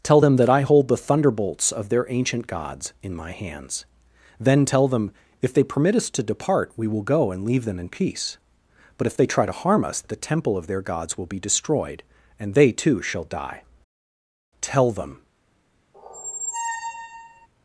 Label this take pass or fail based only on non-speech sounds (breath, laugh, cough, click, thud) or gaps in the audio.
fail